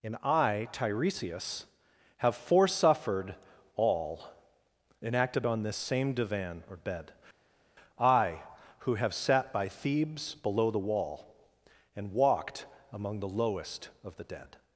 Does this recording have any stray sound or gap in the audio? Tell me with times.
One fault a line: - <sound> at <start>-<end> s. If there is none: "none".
none